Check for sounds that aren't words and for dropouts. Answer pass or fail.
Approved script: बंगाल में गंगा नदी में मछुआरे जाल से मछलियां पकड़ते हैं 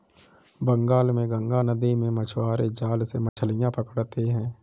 fail